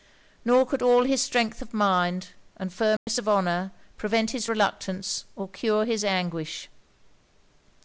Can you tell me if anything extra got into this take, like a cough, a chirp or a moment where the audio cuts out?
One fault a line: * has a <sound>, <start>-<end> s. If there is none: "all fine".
* has a dropout, 3.0-3.1 s